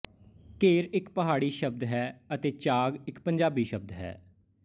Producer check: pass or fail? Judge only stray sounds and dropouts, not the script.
pass